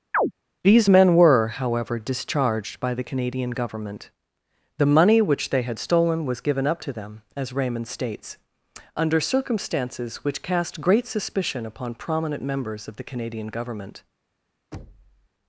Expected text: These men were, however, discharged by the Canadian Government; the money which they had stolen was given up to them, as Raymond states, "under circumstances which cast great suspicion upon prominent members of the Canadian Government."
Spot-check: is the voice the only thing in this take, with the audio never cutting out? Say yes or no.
no